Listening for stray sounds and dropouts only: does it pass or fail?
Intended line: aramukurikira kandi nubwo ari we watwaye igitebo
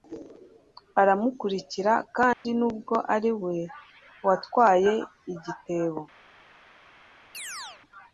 fail